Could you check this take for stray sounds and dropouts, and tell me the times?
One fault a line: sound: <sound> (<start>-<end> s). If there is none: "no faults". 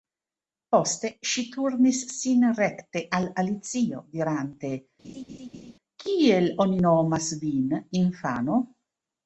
sound: laugh (5.0-5.7 s)